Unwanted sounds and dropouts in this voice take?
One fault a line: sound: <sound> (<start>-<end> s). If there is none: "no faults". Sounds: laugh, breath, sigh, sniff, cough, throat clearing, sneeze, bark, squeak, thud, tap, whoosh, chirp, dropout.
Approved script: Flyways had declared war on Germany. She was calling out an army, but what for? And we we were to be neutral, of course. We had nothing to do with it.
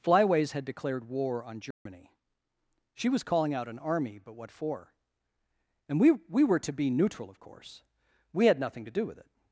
sound: dropout (1.7-1.9 s)